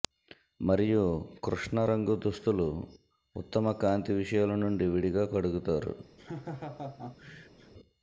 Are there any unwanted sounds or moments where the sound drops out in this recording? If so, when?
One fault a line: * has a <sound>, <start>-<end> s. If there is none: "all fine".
* has a laugh, 6.2-7.7 s